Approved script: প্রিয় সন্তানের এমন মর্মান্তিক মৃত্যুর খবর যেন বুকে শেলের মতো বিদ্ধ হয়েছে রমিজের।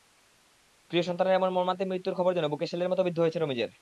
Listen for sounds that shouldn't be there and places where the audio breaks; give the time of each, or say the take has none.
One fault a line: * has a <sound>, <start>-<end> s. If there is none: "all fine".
all fine